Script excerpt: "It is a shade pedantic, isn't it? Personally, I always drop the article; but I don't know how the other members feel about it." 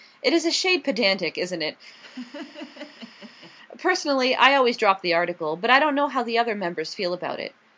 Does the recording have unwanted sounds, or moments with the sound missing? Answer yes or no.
yes